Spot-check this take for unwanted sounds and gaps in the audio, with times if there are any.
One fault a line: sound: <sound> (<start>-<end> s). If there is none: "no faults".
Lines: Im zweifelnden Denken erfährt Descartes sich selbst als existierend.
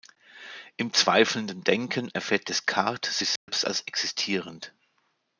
sound: dropout (3.4-3.5 s)